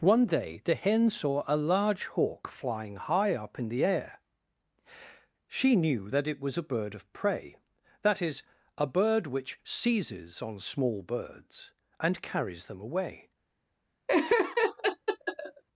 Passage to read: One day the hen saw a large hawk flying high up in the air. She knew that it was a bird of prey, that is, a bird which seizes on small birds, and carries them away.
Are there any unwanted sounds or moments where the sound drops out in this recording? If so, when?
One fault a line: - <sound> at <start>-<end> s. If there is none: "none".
- laugh at 14.1-15.6 s